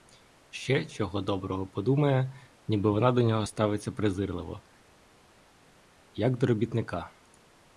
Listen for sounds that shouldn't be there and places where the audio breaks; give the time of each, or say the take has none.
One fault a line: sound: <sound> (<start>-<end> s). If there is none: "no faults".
no faults